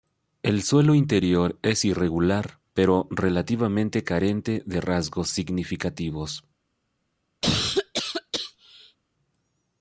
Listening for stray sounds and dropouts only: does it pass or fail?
fail